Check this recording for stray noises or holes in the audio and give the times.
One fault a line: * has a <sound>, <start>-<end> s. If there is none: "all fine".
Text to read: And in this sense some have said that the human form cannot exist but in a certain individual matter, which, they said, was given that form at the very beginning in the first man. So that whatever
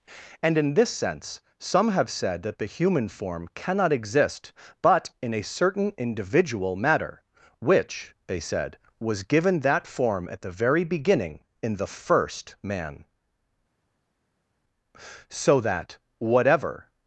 all fine